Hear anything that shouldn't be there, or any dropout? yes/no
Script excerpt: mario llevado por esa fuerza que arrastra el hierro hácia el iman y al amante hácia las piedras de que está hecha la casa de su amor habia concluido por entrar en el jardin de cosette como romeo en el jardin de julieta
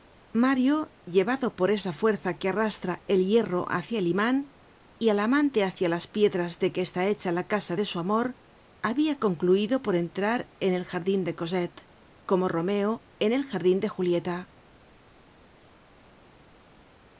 no